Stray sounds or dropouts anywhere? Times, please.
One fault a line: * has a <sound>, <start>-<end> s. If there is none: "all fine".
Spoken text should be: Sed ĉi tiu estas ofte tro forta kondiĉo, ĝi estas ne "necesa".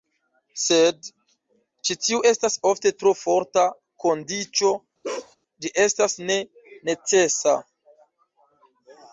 * has a bark, 5.0-5.4 s